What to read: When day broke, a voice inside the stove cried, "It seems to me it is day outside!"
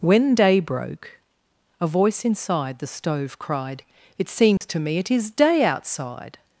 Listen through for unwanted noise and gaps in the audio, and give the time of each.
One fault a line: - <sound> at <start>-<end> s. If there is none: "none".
- dropout at 4.6-4.6 s